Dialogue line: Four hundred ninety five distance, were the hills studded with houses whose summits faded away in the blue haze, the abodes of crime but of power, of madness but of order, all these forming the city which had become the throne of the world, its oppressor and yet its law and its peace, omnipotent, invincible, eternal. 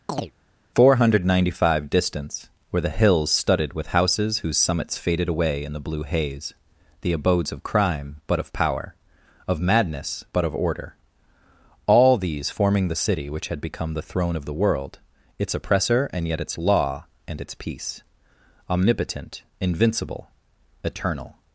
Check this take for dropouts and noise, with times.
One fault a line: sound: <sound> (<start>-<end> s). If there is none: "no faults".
sound: chirp (0.1-0.3 s)